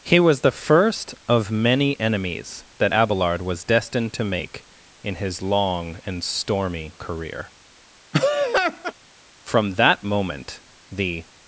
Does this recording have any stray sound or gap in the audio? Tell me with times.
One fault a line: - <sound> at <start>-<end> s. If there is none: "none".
- laugh at 8.1-8.9 s